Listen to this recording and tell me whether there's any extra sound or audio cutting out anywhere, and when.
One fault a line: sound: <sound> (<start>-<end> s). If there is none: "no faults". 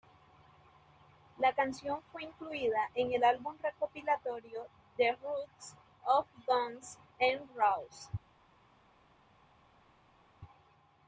no faults